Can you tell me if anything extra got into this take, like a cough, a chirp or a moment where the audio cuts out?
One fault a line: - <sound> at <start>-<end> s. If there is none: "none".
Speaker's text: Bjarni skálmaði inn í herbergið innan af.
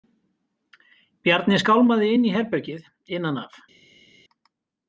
none